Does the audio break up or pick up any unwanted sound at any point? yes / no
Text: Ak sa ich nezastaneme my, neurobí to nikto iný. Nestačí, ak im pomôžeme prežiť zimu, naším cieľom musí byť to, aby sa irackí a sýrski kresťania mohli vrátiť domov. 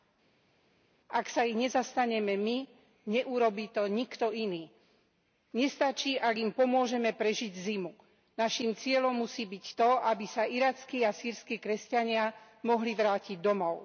no